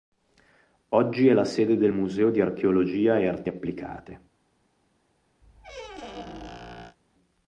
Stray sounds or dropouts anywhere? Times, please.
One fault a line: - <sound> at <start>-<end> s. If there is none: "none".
- squeak at 5.4-7.0 s